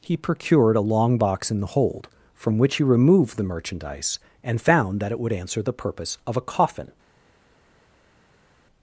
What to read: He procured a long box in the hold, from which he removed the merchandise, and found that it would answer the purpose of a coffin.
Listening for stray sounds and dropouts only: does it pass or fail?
pass